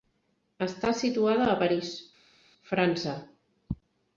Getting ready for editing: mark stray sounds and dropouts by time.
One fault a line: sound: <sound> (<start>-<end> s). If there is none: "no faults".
no faults